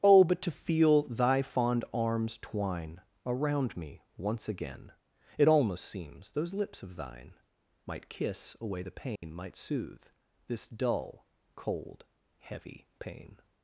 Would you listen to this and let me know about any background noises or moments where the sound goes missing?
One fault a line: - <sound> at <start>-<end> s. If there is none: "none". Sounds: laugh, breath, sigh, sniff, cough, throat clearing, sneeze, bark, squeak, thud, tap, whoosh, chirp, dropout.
- dropout at 9.2-9.2 s